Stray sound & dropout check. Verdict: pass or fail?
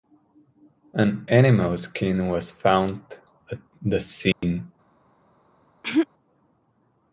fail